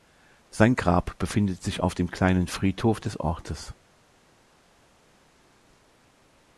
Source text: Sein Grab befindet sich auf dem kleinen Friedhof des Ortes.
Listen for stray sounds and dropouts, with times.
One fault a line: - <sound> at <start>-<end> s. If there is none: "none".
none